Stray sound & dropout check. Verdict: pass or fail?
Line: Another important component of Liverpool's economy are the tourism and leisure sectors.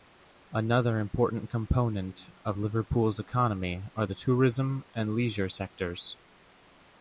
pass